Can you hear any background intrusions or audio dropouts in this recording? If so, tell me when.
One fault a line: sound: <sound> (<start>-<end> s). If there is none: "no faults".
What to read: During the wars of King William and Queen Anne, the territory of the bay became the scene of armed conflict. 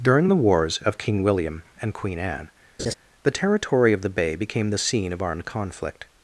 sound: laugh (2.8-2.9 s)